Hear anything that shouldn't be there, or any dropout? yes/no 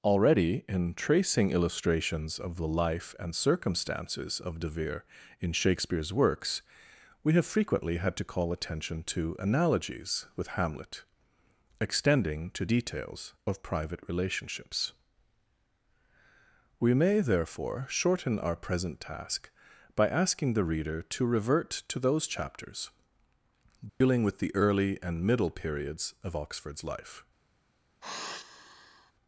yes